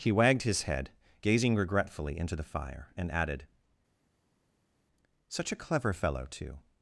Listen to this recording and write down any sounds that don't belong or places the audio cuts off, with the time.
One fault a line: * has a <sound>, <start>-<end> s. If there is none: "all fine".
all fine